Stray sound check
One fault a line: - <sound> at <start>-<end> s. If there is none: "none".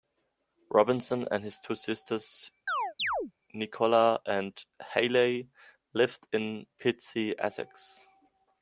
- chirp at 2.7-3.3 s